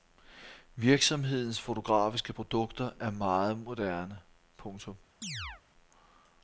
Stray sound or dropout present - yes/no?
yes